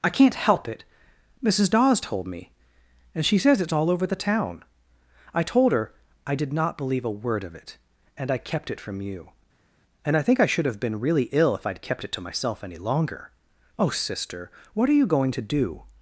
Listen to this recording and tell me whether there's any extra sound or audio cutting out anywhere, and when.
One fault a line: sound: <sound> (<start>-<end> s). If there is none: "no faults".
no faults